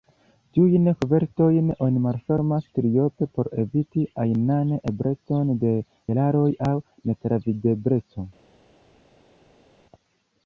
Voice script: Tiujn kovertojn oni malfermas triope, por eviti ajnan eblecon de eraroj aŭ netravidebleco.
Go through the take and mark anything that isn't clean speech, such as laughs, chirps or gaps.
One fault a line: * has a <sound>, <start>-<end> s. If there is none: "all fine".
all fine